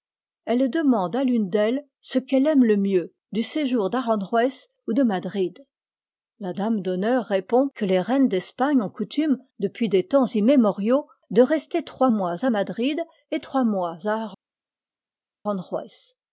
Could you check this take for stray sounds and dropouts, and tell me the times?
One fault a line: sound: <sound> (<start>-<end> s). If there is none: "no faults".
no faults